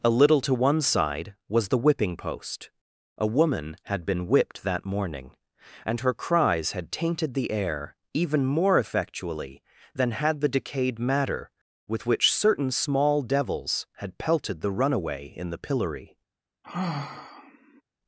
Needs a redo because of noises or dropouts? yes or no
yes